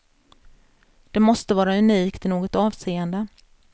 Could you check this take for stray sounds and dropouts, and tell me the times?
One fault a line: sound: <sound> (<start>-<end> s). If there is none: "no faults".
no faults